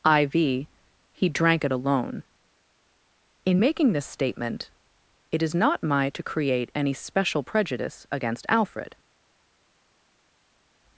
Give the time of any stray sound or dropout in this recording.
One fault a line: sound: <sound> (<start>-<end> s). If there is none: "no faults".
no faults